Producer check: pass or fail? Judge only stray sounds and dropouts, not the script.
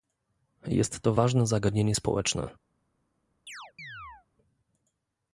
fail